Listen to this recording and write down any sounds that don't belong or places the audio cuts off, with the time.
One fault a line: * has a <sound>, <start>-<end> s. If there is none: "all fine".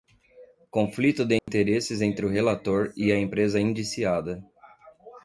* has a dropout, 1.4-1.5 s